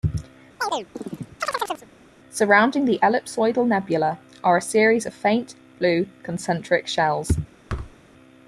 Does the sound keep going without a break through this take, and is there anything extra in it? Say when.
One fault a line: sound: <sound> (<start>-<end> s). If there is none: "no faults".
sound: chirp (0.6-1.9 s)
sound: thud (7.7-8.0 s)